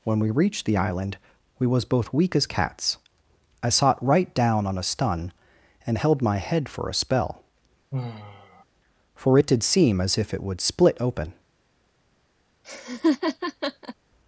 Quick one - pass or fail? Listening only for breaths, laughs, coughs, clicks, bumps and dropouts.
fail